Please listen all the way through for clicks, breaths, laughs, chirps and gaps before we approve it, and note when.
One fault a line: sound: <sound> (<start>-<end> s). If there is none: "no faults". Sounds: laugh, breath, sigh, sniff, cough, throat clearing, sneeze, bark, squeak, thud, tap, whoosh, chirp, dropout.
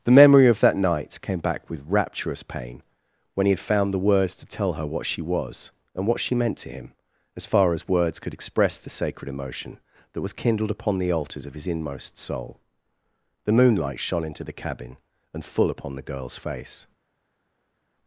no faults